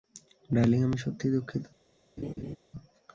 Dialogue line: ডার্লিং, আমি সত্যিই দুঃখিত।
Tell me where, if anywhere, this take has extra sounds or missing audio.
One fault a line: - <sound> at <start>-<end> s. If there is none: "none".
- laugh at 2.2-2.6 s